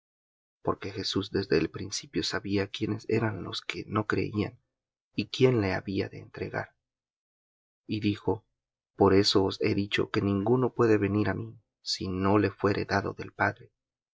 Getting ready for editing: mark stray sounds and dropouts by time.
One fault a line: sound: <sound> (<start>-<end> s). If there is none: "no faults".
no faults